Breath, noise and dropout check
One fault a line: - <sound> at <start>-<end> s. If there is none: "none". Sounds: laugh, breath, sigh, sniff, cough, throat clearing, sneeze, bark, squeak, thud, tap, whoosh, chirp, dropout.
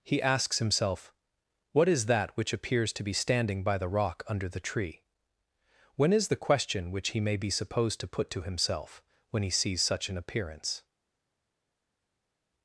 none